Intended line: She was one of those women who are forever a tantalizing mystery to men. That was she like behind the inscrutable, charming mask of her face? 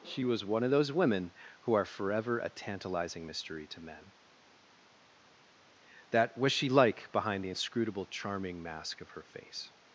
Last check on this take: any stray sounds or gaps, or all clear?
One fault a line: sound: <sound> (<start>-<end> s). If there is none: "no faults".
no faults